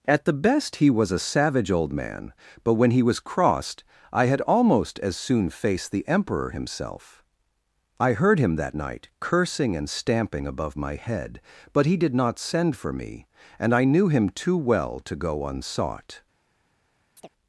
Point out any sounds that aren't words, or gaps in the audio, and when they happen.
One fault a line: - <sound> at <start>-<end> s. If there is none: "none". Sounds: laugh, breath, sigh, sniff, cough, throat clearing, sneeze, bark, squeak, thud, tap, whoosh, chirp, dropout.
- chirp at 17.2-17.3 s